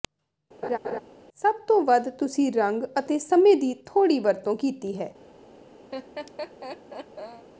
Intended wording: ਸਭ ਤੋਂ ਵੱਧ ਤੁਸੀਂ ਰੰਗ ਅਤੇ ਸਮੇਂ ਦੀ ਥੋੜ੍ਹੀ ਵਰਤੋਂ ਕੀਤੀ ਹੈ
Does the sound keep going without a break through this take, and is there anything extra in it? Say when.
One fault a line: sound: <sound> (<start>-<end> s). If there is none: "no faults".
sound: laugh (0.6-1.0 s)
sound: laugh (5.9-7.5 s)